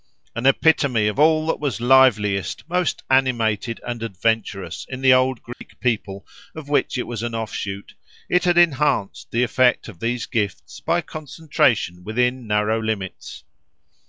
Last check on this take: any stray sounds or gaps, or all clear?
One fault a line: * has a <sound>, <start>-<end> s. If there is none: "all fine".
* has a dropout, 5.5-5.6 s